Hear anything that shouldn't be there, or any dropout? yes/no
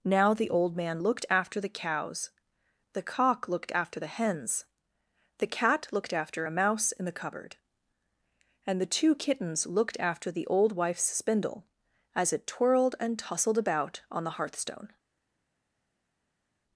no